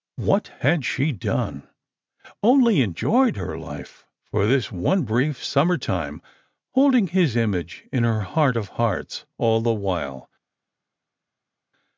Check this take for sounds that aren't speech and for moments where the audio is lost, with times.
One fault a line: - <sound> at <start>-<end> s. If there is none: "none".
none